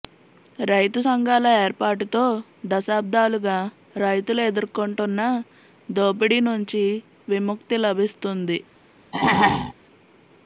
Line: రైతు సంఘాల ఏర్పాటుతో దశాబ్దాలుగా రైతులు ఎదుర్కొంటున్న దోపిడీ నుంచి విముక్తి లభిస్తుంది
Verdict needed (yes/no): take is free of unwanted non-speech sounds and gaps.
no